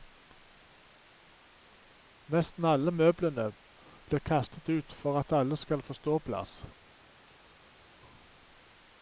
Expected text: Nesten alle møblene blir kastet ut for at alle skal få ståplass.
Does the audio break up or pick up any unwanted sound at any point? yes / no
no